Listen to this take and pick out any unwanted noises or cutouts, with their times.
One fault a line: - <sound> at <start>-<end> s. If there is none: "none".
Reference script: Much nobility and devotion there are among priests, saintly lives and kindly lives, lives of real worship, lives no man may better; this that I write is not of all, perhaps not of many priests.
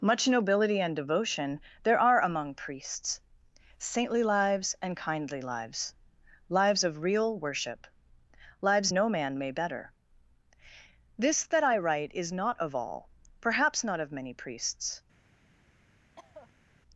- cough at 16.2-16.7 s